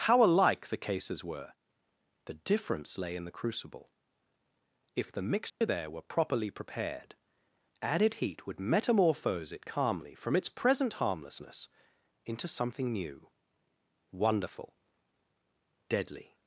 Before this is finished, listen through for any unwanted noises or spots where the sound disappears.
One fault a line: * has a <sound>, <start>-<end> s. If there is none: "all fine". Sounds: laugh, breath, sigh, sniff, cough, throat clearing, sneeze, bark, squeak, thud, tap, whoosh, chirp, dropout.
* has a dropout, 5.5-5.6 s